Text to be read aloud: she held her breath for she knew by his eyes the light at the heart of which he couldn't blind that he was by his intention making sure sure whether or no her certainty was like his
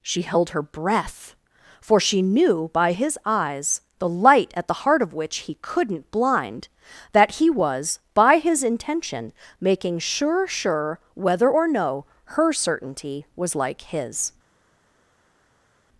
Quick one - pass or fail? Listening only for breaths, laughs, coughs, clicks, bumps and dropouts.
pass